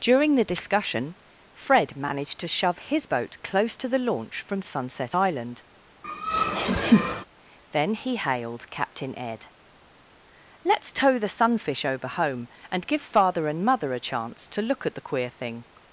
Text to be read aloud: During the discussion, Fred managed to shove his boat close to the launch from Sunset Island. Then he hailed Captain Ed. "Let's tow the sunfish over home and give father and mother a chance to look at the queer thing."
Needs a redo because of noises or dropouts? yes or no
yes